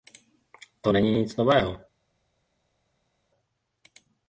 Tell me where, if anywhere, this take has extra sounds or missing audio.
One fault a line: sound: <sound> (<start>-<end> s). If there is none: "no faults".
no faults